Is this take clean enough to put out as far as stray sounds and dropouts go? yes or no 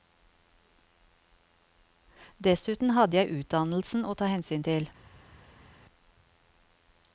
yes